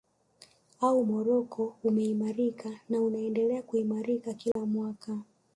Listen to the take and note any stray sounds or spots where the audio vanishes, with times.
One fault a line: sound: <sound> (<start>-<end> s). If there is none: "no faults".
sound: dropout (4.5-4.6 s)